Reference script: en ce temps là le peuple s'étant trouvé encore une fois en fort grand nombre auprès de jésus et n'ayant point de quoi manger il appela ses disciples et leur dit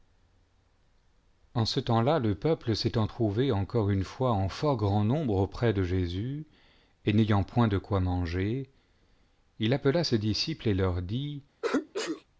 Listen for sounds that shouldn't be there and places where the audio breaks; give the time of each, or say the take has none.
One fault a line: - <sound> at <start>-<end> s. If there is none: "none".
- sneeze at 11.6-12.2 s